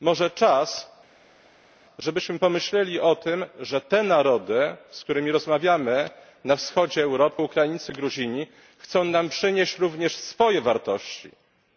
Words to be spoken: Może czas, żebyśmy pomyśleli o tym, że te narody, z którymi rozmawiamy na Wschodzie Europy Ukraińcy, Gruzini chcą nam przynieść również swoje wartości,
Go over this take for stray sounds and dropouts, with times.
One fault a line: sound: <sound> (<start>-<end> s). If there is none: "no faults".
no faults